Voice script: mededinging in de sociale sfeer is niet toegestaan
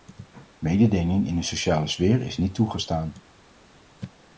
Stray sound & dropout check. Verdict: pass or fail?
pass